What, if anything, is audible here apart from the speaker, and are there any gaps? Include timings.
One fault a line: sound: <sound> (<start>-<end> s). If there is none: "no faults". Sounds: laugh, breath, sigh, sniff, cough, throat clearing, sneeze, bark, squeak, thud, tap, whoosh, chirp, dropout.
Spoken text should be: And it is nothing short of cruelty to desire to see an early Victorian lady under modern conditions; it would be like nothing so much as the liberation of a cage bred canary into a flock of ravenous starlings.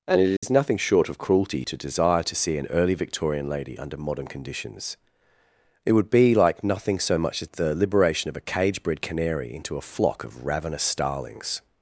sound: dropout (0.4-0.4 s)